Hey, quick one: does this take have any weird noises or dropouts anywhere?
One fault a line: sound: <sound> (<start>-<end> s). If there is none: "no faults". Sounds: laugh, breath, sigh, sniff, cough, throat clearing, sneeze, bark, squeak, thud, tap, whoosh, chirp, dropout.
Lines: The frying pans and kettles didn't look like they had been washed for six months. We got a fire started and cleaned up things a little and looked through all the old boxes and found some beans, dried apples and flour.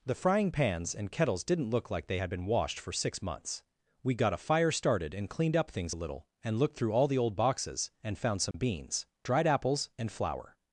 sound: dropout (8.5-8.5 s)